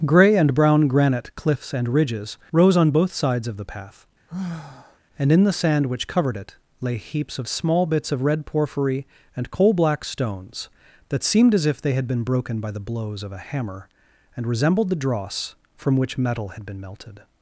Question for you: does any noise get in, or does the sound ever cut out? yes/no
yes